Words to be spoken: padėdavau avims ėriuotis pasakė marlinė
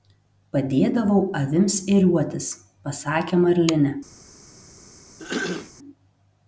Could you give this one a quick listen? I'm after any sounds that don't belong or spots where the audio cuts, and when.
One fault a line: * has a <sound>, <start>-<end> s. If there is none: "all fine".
* has a throat clearing, 5.2-5.7 s